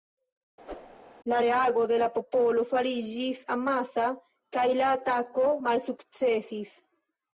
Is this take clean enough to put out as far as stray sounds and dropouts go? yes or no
no